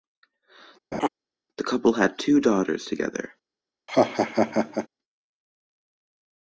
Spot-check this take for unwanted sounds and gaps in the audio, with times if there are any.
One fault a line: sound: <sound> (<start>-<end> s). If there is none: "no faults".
sound: laugh (0.9-1.1 s)
sound: laugh (3.9-4.9 s)